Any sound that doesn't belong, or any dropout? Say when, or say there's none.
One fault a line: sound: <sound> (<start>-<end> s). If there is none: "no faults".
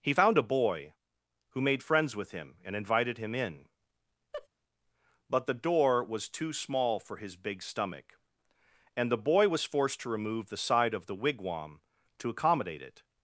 sound: laugh (4.3-4.5 s)